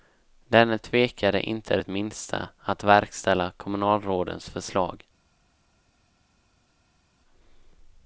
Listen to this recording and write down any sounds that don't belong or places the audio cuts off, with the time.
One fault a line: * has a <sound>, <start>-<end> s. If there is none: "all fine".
all fine